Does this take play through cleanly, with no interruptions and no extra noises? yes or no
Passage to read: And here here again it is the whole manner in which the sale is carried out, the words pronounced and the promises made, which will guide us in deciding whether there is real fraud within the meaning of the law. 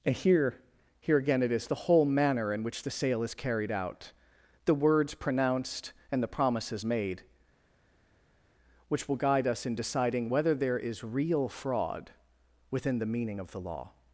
yes